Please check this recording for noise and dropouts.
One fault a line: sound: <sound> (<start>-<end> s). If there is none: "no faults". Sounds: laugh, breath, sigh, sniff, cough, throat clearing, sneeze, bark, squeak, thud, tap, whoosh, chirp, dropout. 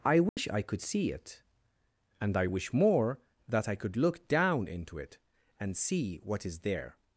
sound: dropout (0.3-0.4 s)